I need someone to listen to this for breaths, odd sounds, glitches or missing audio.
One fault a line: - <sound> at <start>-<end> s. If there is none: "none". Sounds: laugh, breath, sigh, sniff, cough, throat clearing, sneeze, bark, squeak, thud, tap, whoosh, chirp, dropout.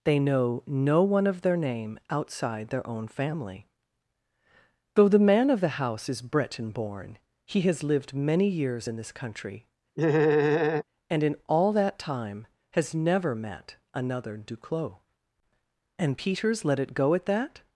- laugh at 10.0-10.8 s